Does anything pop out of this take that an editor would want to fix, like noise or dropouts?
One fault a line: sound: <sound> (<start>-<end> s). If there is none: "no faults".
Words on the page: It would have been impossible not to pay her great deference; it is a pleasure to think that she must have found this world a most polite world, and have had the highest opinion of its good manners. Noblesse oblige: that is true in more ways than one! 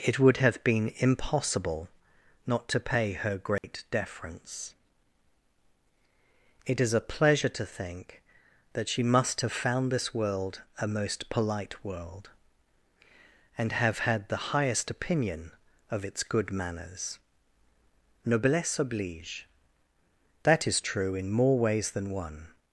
sound: dropout (3.6-3.6 s)